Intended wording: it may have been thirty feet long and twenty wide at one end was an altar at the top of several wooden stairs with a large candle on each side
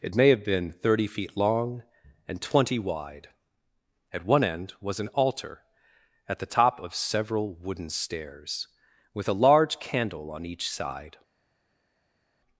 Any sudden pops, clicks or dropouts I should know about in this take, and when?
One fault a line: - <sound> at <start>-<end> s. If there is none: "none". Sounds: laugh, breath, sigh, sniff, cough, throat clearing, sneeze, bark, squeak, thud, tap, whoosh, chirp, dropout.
none